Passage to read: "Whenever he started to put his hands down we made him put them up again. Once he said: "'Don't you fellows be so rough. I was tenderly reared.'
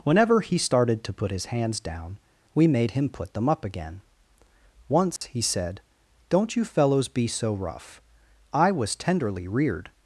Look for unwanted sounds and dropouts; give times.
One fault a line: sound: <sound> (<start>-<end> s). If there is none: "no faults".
sound: dropout (5.2-5.2 s)